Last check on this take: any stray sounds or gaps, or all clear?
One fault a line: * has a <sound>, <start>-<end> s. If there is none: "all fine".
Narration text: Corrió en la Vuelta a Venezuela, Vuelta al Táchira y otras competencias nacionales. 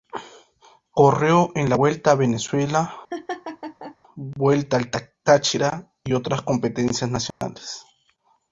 * has a laugh, 3.1-4.0 s
* has a dropout, 7.3-7.4 s